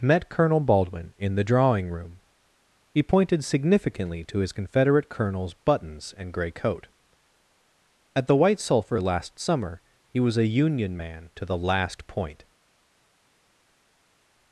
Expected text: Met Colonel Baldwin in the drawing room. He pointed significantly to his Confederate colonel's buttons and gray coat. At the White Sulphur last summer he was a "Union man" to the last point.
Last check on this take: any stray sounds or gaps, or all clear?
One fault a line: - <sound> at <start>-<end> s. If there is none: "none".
none